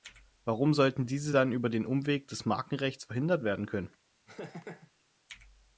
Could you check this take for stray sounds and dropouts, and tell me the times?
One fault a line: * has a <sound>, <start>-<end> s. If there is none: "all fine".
* has a laugh, 4.3-4.9 s